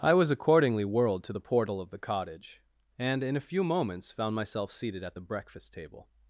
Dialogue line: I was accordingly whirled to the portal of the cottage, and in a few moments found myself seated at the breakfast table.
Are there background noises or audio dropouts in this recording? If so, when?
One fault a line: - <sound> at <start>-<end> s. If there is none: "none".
none